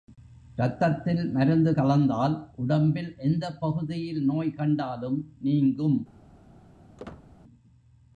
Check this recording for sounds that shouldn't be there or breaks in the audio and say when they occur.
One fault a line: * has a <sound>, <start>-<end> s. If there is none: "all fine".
* has a squeak, 7.0-7.3 s